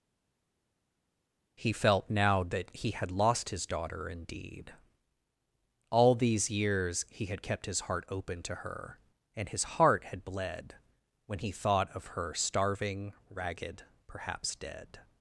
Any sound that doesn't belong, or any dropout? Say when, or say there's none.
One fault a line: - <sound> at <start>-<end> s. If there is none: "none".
none